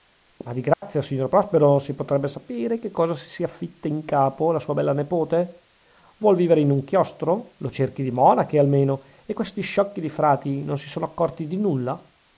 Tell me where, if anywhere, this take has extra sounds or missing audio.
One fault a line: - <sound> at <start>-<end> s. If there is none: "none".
- dropout at 0.7-0.8 s